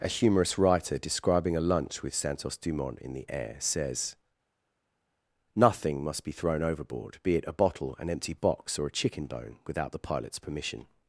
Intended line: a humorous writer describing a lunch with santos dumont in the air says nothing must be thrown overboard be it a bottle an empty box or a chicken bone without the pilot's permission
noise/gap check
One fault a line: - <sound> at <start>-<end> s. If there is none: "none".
none